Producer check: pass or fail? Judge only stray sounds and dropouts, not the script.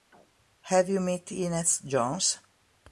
pass